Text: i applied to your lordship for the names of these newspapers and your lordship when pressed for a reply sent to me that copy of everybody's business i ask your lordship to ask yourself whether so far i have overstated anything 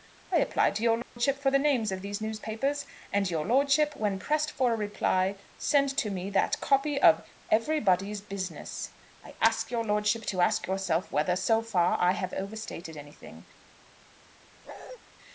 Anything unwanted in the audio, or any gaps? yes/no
yes